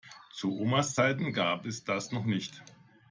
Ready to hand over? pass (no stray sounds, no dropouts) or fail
pass